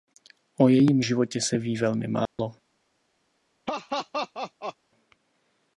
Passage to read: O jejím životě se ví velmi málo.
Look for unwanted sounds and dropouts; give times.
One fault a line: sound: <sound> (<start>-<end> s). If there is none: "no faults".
sound: dropout (2.3-2.4 s)
sound: laugh (3.7-4.8 s)